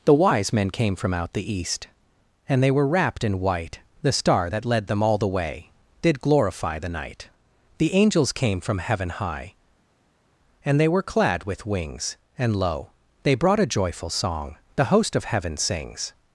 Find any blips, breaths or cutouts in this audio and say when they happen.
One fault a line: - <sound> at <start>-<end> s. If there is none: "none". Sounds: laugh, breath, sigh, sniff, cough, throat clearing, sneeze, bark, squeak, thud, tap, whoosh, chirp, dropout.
none